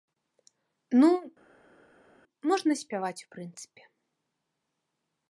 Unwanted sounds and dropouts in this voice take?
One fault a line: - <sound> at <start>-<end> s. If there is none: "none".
none